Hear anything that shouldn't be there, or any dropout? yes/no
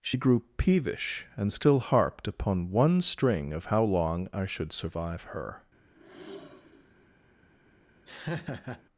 yes